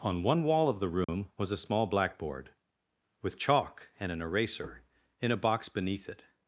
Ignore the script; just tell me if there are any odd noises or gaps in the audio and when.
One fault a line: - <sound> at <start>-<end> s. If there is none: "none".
- dropout at 1.0-1.1 s